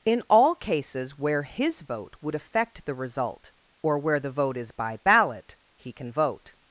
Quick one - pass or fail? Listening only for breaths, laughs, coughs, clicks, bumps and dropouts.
pass